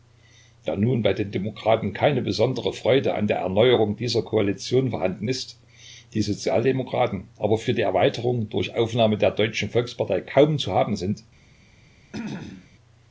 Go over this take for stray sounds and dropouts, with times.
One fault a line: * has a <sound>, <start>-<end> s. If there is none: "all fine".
* has a throat clearing, 12.1-12.7 s